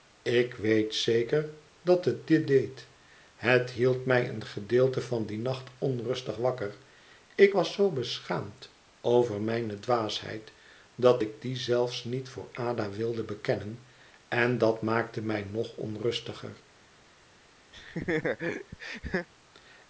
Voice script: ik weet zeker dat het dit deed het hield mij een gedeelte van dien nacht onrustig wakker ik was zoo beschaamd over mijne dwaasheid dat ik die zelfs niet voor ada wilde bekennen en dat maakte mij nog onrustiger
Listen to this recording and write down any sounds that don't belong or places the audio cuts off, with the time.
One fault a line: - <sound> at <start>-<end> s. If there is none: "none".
- laugh at 17.7-19.3 s